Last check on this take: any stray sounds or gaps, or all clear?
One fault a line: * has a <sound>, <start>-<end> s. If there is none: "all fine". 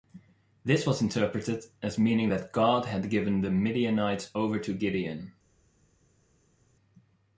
all fine